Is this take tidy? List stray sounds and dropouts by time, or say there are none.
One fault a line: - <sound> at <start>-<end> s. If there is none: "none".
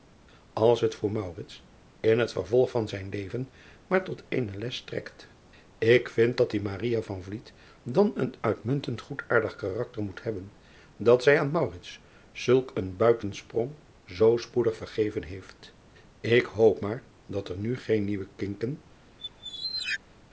- squeak at 19.2-20.0 s